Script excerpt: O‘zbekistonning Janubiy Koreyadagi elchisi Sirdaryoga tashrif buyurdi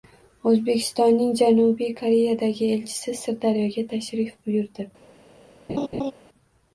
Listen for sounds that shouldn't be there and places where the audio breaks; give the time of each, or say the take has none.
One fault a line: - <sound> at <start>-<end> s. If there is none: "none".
- laugh at 5.7-6.1 s